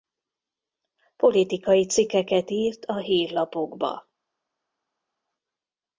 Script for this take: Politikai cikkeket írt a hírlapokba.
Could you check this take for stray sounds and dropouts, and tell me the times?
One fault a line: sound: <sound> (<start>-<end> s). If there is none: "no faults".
no faults